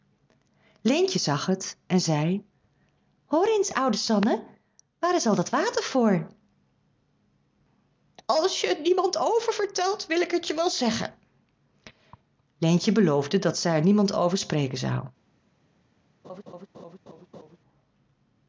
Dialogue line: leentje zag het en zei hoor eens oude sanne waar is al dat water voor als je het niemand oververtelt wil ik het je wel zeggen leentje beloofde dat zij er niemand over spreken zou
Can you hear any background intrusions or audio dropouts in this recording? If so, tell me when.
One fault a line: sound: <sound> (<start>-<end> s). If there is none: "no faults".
sound: laugh (16.2-17.6 s)